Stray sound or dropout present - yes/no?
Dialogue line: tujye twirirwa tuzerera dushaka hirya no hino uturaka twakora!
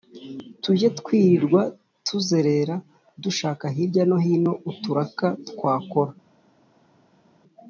no